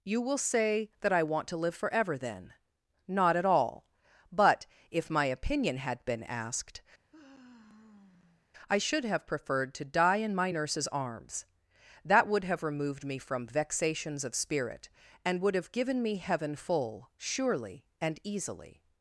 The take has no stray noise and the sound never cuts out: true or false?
false